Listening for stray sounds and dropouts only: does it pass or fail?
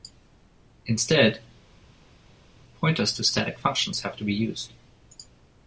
pass